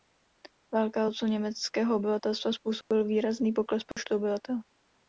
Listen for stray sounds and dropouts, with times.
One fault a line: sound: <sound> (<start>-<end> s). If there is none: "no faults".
sound: dropout (2.8-2.9 s)
sound: dropout (3.9-4.0 s)